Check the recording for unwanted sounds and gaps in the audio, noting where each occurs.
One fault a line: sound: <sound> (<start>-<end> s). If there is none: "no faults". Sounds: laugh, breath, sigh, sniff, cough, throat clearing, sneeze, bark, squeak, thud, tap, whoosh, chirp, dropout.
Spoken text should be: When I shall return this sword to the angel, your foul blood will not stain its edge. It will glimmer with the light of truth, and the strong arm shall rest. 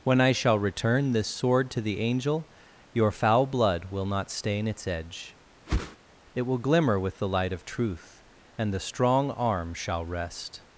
sound: whoosh (5.7-6.0 s)